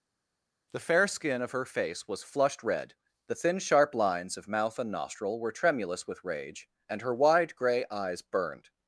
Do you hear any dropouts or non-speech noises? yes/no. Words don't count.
no